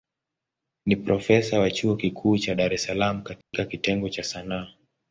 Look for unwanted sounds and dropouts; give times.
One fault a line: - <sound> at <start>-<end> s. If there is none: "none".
- dropout at 3.4-3.5 s